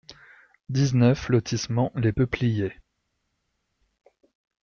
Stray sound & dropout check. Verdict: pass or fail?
pass